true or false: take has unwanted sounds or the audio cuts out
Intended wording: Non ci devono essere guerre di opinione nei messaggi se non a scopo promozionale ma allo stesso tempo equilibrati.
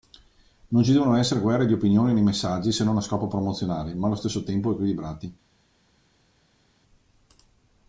false